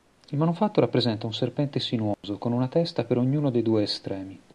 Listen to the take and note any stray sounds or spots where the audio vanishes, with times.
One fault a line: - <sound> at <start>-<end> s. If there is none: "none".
- dropout at 2.1-2.2 s